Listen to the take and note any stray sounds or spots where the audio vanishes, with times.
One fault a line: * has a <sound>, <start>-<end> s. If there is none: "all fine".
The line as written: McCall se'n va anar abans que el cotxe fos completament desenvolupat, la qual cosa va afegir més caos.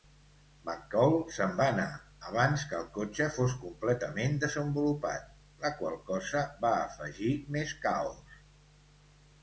all fine